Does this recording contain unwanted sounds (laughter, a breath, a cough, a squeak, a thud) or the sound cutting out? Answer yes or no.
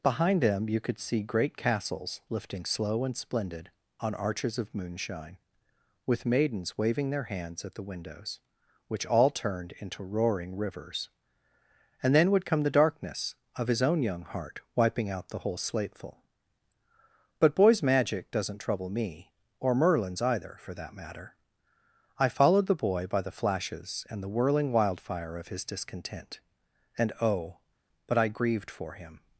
no